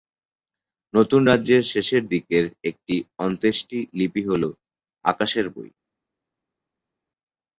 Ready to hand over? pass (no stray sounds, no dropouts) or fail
pass